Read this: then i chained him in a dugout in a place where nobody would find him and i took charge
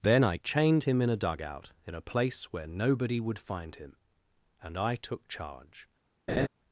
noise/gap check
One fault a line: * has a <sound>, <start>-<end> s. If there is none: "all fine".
* has a laugh, 6.3-6.5 s